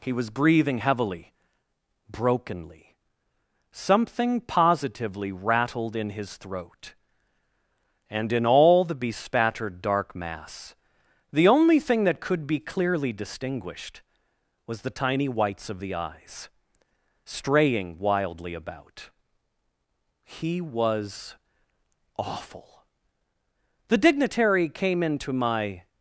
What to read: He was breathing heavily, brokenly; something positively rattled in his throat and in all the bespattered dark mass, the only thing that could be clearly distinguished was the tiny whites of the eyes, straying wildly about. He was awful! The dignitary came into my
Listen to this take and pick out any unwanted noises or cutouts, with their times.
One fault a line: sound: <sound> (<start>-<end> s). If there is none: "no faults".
no faults